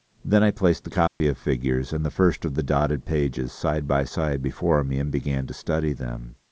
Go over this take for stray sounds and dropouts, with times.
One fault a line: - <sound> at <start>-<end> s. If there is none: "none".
- dropout at 1.1-1.2 s